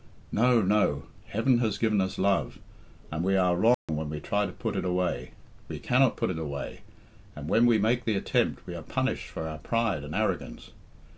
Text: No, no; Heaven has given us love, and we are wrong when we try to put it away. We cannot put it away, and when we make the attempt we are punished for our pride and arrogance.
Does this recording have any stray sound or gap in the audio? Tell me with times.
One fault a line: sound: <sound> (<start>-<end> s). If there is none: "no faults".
sound: dropout (3.7-3.9 s)